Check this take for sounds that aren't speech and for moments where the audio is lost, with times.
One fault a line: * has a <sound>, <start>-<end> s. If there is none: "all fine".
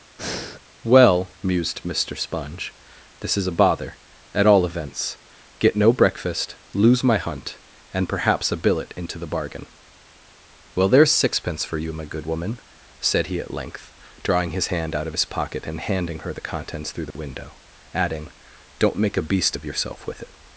* has a breath, 0.2-0.6 s
* has a dropout, 17.1-17.2 s